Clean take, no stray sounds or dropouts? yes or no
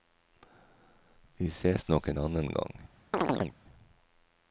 no